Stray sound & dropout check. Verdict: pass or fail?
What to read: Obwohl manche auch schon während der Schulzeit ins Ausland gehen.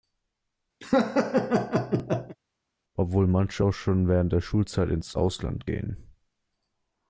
fail